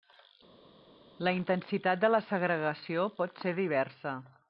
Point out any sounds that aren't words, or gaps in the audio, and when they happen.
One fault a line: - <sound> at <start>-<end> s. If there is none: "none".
none